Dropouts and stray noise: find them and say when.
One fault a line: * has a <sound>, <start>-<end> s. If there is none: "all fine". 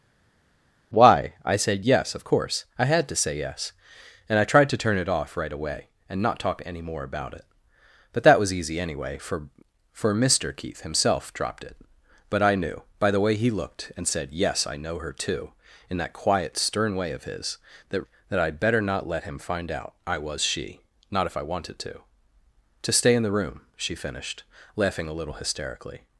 all fine